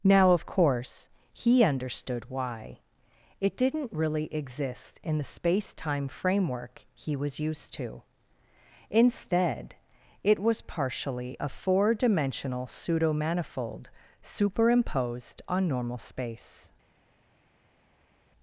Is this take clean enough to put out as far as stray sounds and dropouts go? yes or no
yes